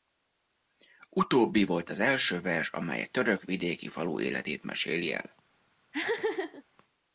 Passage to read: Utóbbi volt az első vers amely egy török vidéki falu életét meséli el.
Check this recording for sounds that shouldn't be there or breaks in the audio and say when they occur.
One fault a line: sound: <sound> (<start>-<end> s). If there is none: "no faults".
sound: laugh (5.9-6.6 s)